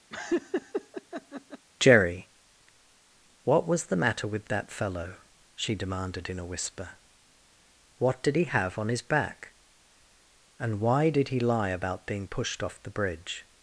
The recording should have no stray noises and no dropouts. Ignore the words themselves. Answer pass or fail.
fail